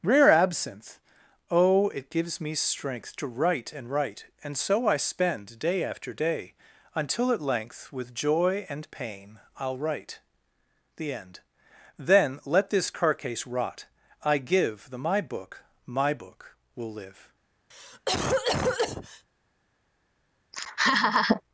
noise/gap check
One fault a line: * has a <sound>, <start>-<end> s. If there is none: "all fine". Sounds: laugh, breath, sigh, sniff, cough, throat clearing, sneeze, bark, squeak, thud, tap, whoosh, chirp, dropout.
* has a cough, 17.7-19.3 s
* has a laugh, 20.5-21.4 s